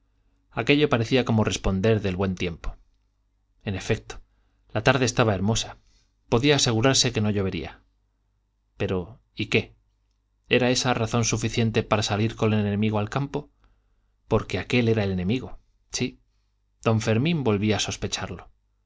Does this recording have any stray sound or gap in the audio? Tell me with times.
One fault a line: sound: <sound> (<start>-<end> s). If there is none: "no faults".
no faults